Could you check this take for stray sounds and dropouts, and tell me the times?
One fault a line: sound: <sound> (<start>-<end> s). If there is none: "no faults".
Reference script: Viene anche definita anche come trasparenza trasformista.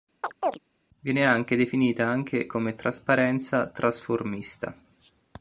sound: chirp (0.2-0.6 s)